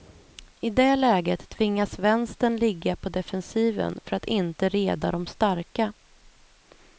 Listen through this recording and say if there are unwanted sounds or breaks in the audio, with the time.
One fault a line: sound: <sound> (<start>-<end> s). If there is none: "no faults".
no faults